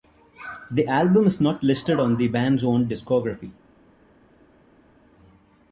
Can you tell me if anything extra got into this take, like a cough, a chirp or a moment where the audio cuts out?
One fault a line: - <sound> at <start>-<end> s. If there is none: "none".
none